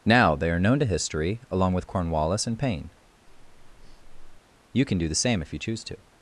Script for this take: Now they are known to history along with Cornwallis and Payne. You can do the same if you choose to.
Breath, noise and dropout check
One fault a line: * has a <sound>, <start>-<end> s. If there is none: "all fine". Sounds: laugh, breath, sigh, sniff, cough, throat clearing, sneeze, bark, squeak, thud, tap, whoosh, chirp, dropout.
* has a breath, 3.3-4.4 s